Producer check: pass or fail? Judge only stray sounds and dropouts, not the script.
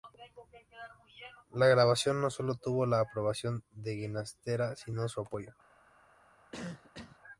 fail